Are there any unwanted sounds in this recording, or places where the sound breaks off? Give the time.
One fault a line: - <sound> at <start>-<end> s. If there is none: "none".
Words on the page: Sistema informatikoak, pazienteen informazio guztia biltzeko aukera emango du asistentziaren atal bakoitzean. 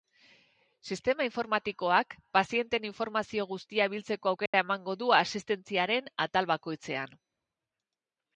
- dropout at 4.5-4.5 s